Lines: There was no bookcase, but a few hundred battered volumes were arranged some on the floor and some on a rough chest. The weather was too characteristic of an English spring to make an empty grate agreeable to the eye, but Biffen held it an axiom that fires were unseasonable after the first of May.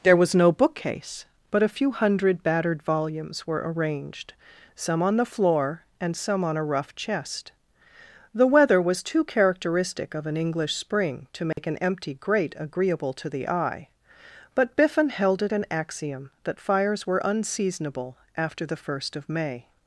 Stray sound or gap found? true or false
true